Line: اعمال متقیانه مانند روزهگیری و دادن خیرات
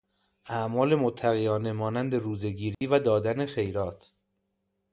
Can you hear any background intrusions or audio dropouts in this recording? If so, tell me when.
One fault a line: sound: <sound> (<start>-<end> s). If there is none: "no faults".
sound: dropout (2.7-2.8 s)